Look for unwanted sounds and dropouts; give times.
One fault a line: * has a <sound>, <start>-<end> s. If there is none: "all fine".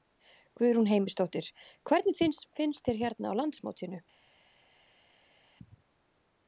all fine